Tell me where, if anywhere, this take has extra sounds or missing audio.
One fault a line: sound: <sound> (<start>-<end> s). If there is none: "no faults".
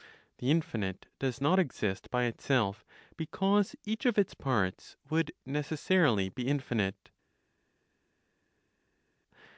no faults